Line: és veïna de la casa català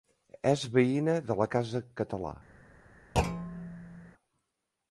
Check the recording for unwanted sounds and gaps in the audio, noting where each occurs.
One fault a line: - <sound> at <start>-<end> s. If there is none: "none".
- thud at 3.1-4.1 s